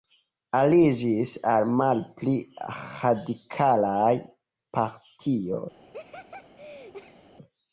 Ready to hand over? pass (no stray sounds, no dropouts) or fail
fail